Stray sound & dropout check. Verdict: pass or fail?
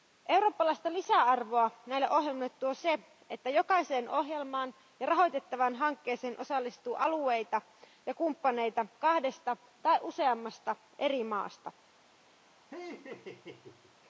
fail